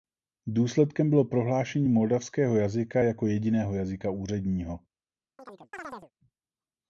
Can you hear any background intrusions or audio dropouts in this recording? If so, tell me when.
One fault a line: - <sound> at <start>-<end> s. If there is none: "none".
- chirp at 5.4-6.1 s